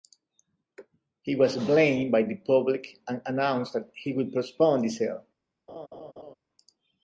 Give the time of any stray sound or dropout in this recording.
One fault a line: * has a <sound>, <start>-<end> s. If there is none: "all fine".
* has a laugh, 5.7-6.3 s